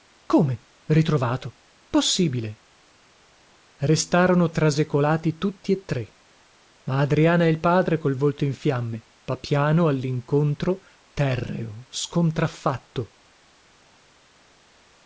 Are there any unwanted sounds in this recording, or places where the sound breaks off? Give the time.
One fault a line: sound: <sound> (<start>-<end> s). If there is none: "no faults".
no faults